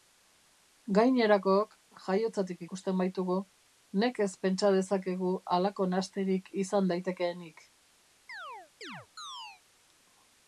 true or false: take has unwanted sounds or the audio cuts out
true